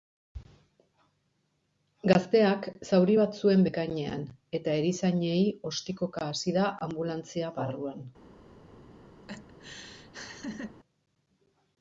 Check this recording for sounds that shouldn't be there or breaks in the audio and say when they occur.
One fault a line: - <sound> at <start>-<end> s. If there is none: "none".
- laugh at 9.2-10.8 s